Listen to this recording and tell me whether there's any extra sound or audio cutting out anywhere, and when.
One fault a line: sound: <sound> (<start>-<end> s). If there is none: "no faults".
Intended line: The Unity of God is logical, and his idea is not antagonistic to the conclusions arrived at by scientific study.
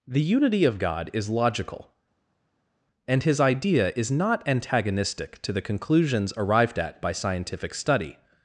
no faults